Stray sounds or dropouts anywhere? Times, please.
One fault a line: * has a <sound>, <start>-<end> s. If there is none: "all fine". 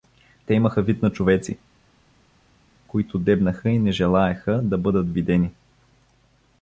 all fine